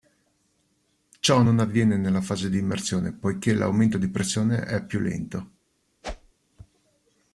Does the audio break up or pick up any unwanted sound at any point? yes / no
yes